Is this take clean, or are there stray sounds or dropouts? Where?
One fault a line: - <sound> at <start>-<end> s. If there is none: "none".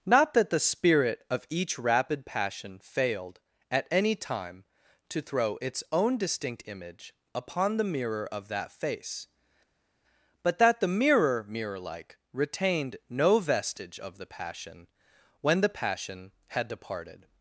none